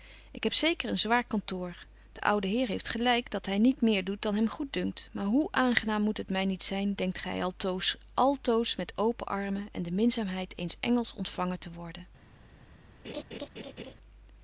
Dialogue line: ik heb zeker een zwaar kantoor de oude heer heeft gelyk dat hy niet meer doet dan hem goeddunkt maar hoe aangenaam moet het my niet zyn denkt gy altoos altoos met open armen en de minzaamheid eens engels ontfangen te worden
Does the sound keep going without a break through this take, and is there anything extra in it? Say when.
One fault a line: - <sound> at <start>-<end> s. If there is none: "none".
- laugh at 13.0-13.9 s